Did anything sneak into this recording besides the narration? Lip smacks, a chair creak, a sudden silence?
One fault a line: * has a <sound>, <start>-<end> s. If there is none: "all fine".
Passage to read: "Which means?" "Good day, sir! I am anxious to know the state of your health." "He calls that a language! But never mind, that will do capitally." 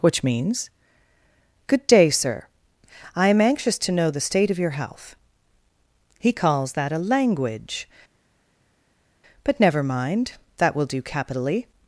all fine